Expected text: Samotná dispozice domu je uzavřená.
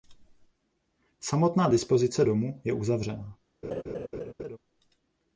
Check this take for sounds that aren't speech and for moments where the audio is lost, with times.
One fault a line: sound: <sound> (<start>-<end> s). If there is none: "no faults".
sound: laugh (3.6-4.6 s)